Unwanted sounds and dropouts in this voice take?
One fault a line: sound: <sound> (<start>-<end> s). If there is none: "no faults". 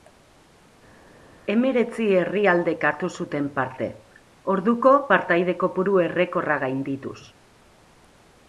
no faults